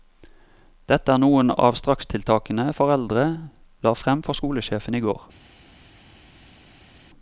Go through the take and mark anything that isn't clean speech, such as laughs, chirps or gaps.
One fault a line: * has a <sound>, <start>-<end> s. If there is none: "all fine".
all fine